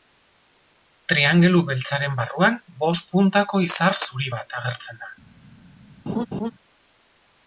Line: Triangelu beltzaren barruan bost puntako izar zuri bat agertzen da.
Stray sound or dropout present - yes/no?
yes